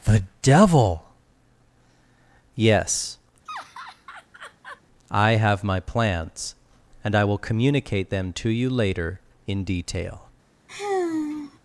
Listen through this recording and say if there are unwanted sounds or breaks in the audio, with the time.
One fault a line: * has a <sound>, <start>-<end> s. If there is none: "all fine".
* has a laugh, 3.5-4.8 s
* has a sigh, 10.7-11.6 s